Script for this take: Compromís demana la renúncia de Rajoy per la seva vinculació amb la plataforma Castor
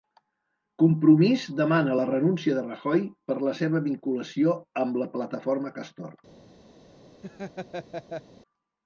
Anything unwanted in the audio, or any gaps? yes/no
yes